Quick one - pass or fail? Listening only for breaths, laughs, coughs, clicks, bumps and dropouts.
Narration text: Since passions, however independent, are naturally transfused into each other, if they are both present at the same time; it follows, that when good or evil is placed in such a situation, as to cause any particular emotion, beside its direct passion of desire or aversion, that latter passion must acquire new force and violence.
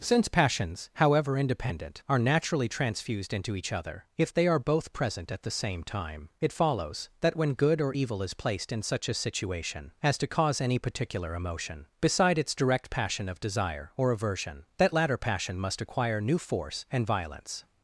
pass